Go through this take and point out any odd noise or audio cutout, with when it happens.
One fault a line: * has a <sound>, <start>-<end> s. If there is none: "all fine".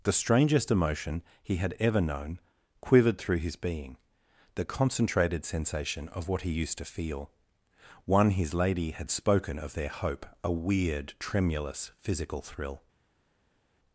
all fine